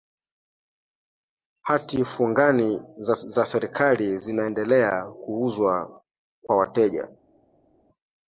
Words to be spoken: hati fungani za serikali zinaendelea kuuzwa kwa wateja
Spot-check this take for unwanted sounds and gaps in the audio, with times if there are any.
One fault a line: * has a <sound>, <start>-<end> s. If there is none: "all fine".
all fine